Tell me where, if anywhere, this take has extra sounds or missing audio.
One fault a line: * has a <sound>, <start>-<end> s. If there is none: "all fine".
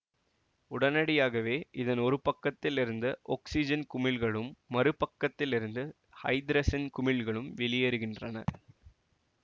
* has a laugh, 8.5-8.7 s